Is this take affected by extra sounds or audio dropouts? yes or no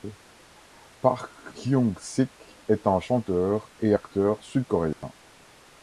yes